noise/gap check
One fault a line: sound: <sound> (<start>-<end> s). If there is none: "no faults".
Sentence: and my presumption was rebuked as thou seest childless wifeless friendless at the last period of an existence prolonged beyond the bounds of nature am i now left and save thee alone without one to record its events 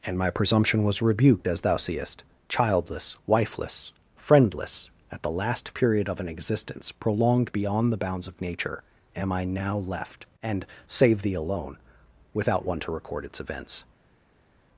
no faults